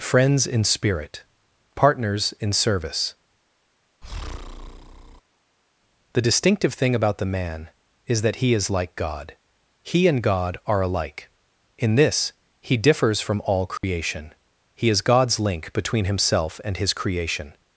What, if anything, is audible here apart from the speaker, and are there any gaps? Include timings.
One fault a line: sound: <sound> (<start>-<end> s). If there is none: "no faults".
sound: breath (4.0-5.2 s)
sound: dropout (13.8-13.8 s)